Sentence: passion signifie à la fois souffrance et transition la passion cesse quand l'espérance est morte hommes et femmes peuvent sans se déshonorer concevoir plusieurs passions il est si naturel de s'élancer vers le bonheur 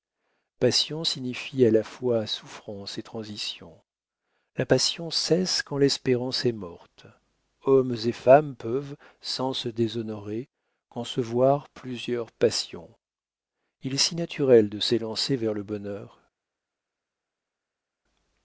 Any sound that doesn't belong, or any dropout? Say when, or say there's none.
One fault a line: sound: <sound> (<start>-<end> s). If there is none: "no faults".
no faults